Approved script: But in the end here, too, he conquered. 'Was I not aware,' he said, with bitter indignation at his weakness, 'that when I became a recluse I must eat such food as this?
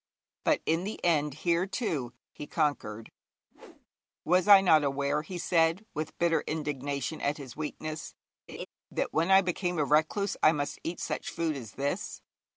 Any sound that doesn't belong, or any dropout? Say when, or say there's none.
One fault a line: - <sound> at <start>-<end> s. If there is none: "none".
- whoosh at 3.5-3.9 s
- laugh at 8.5-8.7 s